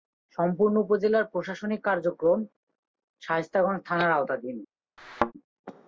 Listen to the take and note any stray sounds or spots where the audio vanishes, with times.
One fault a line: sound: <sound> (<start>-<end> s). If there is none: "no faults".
sound: thud (5.0-5.3 s)